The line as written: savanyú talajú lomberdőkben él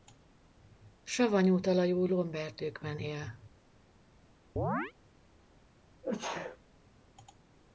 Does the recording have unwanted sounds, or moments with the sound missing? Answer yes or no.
yes